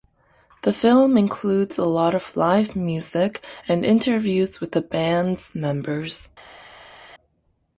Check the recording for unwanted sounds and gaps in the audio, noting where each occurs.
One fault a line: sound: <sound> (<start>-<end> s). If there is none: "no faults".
no faults